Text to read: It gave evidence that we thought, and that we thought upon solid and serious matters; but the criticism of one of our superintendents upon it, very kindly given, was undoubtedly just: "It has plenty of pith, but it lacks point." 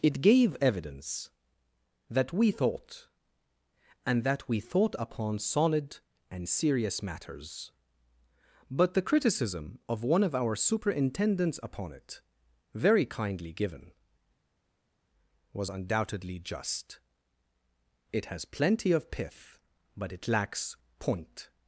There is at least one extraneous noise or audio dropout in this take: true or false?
false